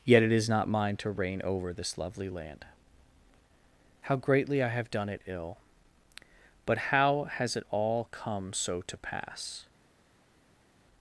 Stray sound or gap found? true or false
false